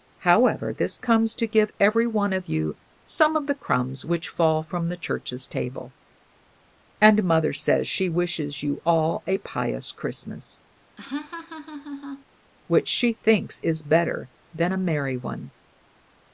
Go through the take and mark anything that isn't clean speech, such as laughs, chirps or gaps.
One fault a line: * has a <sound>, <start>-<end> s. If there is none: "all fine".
* has a laugh, 11.0-12.3 s